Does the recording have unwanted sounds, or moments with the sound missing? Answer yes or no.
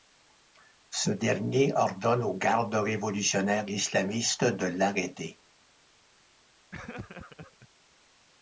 yes